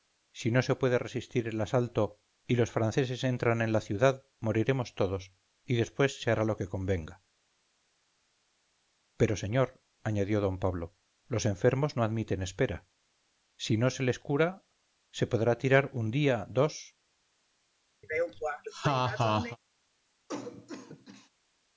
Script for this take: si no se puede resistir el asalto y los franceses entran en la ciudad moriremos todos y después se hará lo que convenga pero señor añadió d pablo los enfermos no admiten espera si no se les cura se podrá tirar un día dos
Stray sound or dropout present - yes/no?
yes